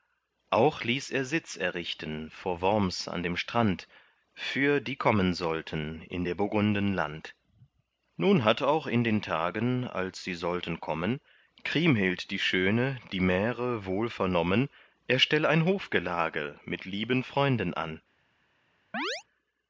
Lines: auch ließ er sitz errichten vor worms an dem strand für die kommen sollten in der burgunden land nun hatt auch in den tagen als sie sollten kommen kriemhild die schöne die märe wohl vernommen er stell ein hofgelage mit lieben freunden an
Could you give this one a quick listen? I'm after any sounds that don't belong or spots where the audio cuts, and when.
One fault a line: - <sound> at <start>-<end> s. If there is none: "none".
- chirp at 18.9-19.2 s